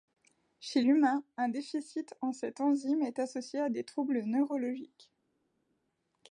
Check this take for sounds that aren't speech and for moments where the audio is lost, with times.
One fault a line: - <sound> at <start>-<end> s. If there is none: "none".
none